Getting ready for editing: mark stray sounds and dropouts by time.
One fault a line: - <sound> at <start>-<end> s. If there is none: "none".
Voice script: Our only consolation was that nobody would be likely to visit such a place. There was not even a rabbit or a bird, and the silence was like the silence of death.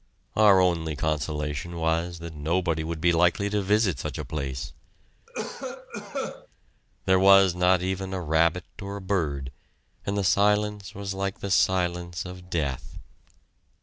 - cough at 5.3-6.5 s